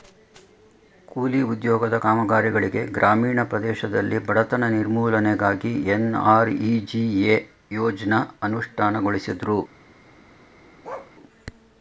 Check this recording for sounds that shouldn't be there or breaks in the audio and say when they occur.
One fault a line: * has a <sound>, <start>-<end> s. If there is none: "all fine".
* has a bark, 10.8-11.1 s